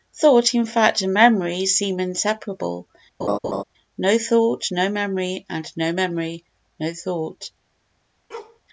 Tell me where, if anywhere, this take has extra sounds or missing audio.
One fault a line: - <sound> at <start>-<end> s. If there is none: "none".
- laugh at 3.2-3.6 s
- bark at 8.3-8.6 s